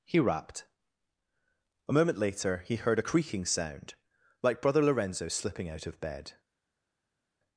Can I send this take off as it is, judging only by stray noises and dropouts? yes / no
yes